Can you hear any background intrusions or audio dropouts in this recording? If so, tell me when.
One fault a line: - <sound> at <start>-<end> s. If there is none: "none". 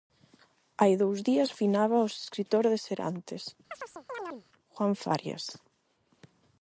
- chirp at 3.7-4.4 s